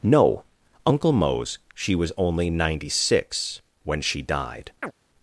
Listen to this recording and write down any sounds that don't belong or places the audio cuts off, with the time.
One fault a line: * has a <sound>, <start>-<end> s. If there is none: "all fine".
* has a chirp, 4.8-4.9 s